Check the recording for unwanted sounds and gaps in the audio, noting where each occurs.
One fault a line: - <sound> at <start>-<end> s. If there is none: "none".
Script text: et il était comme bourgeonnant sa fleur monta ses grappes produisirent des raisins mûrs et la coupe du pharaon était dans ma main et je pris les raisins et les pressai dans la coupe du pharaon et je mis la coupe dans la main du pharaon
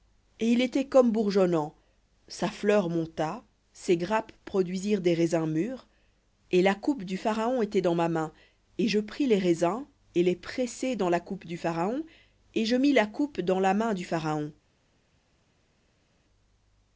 none